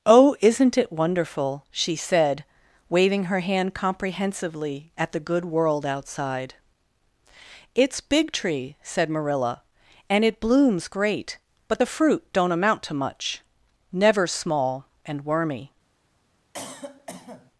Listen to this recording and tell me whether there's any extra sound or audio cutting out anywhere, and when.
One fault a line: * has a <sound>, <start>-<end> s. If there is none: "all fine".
* has a cough, 16.5-17.5 s